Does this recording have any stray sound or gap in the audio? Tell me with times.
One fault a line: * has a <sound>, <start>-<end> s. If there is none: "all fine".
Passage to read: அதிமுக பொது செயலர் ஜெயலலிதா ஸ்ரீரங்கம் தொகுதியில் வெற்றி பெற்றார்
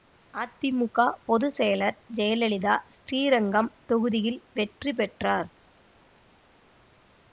all fine